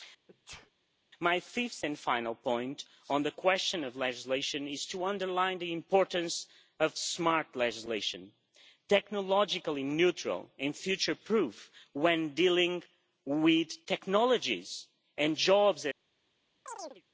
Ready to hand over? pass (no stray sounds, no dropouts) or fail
fail